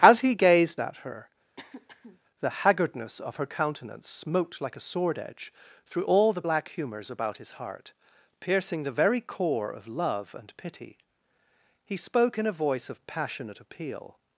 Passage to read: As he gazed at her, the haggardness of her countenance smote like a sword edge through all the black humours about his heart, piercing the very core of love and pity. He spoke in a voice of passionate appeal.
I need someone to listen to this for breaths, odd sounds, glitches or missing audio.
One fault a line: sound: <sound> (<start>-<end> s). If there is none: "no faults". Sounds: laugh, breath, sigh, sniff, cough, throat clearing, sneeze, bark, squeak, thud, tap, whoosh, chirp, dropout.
sound: throat clearing (1.6-2.2 s)